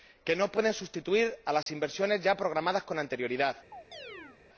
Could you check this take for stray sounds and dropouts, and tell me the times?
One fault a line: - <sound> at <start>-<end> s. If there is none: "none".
- dropout at 1.6-1.7 s
- chirp at 3.7-4.4 s